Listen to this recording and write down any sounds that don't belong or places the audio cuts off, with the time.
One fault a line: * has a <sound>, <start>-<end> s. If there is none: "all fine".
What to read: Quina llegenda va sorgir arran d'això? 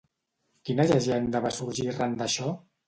all fine